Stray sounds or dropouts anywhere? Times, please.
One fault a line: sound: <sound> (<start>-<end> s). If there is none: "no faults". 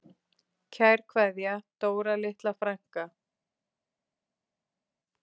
no faults